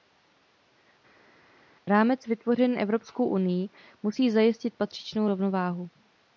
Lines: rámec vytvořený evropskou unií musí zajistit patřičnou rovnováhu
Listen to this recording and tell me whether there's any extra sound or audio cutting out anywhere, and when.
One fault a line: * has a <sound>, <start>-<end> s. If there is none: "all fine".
all fine